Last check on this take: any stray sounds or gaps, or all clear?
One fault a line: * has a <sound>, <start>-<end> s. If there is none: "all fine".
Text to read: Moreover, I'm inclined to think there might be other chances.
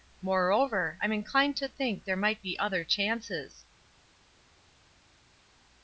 all fine